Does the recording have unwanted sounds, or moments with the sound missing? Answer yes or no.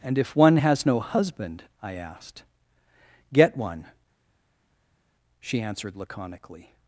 no